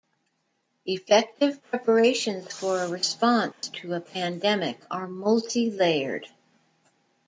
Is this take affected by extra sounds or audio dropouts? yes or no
yes